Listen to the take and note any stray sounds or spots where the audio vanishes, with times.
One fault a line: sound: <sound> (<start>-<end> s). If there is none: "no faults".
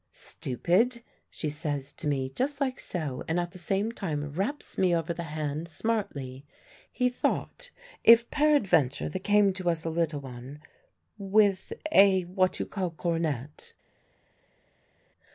no faults